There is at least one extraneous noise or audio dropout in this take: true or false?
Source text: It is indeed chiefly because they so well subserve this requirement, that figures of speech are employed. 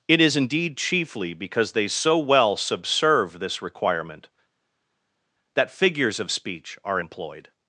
false